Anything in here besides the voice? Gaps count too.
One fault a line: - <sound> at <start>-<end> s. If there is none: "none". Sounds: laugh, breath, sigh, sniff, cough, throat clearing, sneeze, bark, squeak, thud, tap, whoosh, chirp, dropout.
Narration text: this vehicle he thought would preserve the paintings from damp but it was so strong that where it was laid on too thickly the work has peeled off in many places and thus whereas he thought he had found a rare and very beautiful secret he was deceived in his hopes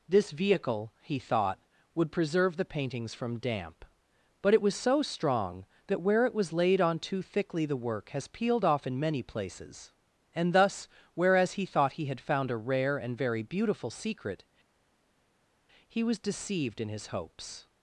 none